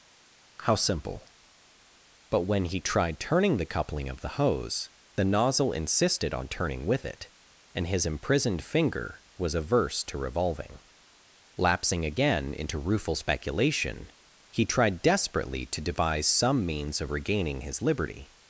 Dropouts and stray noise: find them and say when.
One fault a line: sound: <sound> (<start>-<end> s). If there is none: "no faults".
no faults